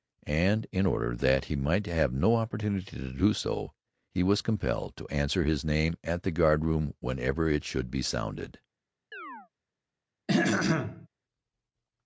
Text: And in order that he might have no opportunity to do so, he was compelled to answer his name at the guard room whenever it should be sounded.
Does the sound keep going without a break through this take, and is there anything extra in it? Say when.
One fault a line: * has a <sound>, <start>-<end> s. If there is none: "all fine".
* has a chirp, 9.1-9.5 s
* has a throat clearing, 10.3-11.1 s